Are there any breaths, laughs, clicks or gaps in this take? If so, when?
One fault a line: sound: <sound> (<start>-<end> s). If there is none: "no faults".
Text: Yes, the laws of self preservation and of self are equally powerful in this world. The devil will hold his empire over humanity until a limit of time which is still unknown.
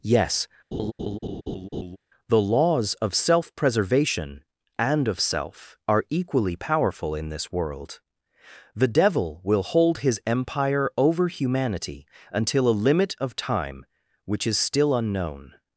sound: laugh (0.7-2.0 s)